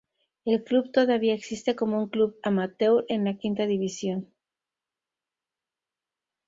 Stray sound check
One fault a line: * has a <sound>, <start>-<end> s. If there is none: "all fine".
all fine